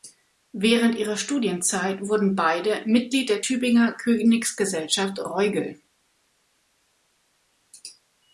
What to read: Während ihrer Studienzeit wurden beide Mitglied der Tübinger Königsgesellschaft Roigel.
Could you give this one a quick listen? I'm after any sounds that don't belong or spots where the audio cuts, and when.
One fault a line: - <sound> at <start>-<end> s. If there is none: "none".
none